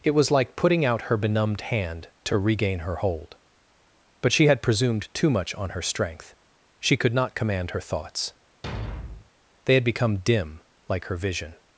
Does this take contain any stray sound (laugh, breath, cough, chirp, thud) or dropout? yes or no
yes